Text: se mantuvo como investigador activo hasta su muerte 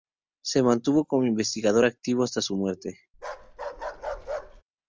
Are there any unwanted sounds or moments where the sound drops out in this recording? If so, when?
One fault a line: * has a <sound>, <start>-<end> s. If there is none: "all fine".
* has a bark, 3.1-4.6 s